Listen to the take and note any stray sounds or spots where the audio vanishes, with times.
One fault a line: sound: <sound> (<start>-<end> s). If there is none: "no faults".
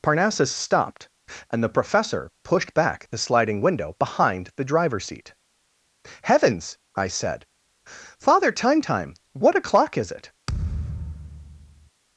sound: thud (10.5-11.9 s)